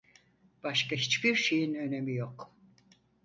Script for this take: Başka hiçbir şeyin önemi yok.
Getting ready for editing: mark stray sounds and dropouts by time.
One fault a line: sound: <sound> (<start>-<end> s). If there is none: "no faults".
no faults